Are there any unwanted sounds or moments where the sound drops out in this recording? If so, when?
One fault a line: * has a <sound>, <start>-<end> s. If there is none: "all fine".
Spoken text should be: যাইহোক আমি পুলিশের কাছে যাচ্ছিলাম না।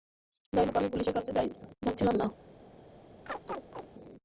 * has a chirp, 3.3-3.9 s